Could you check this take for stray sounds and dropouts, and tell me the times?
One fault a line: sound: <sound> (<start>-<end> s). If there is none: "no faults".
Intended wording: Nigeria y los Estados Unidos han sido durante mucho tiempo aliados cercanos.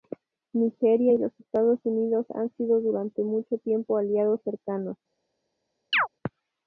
sound: chirp (5.9-6.1 s)